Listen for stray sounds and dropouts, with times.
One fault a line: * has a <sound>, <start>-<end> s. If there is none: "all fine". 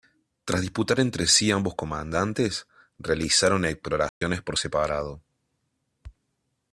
* has a dropout, 4.1-4.2 s